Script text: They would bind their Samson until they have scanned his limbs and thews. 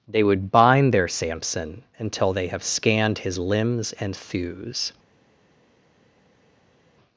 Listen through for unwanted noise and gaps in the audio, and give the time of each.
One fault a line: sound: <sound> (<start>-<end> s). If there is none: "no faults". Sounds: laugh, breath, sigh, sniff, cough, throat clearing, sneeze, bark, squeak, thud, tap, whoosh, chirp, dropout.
no faults